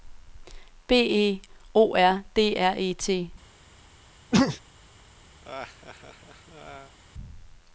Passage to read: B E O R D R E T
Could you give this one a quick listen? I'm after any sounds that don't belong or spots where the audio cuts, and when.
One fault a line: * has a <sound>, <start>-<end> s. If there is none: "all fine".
* has a sneeze, 4.3-4.6 s
* has a laugh, 5.4-7.0 s